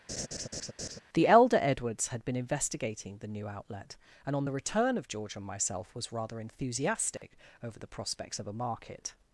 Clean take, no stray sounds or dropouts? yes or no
no